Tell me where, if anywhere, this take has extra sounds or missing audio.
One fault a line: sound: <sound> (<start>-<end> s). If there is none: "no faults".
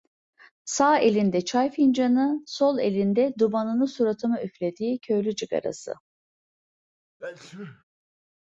sound: sneeze (7.2-7.8 s)